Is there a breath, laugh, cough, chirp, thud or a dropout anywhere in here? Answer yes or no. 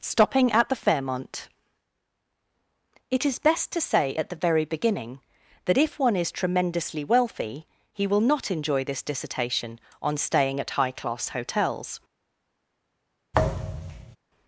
yes